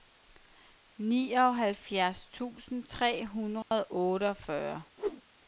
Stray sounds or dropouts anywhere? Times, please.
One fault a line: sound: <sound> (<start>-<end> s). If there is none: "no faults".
sound: dropout (3.6-3.7 s)
sound: whoosh (5.0-5.2 s)